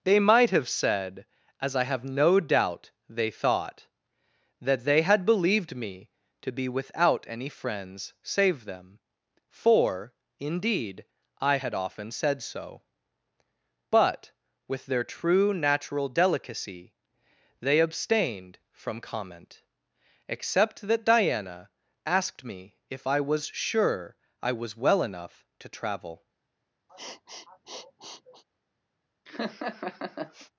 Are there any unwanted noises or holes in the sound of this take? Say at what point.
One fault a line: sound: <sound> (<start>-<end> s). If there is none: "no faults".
sound: sniff (26.9-28.4 s)
sound: laugh (29.3-30.5 s)